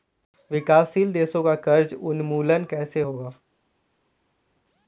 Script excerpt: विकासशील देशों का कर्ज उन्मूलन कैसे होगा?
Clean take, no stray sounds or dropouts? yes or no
yes